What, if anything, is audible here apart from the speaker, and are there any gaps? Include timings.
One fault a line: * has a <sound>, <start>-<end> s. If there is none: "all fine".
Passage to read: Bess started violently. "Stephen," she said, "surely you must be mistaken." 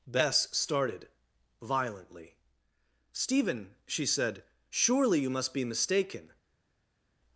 all fine